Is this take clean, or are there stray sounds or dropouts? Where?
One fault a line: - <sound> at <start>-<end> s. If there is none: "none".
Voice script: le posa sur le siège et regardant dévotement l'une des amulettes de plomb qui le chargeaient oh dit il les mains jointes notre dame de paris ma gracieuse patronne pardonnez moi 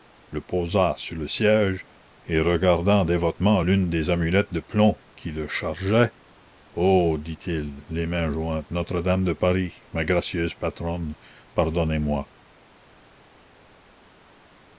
none